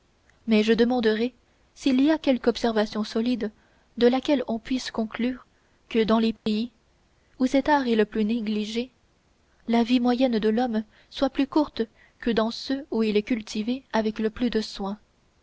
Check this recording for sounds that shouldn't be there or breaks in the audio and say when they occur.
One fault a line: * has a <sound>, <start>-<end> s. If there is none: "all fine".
* has a dropout, 6.4-6.5 s